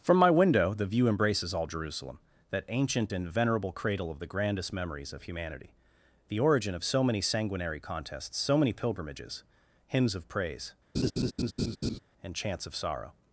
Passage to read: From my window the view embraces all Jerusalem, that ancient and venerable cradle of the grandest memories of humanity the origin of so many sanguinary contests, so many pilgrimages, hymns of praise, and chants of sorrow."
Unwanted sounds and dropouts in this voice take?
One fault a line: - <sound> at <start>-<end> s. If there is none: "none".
- laugh at 10.9-12.0 s